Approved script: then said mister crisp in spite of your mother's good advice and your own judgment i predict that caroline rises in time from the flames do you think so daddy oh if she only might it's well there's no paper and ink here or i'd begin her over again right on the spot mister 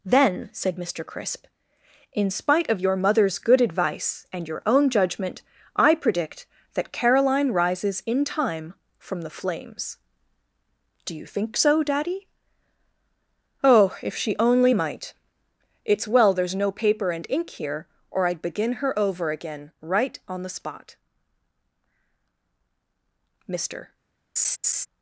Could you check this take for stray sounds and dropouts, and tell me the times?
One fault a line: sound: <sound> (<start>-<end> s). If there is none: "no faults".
sound: laugh (24.4-24.9 s)